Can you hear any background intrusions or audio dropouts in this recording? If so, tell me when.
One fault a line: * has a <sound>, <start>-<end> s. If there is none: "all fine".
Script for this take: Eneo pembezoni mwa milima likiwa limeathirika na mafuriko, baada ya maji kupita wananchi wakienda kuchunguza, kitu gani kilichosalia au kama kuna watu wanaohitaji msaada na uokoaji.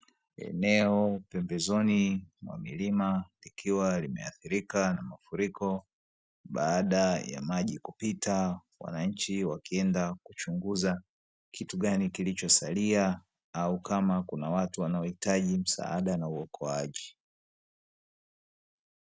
all fine